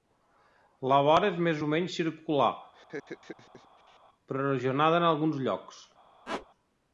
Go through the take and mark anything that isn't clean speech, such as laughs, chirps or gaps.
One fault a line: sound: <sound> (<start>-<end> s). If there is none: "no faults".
sound: laugh (2.7-4.0 s)
sound: squeak (6.3-6.5 s)